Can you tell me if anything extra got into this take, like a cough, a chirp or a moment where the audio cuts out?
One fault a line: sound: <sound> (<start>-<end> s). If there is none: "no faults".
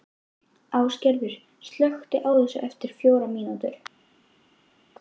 no faults